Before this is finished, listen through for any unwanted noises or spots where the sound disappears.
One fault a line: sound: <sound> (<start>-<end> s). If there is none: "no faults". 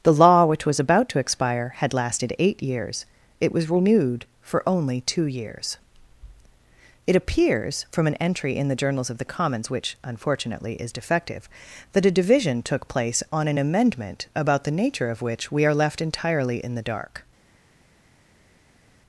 no faults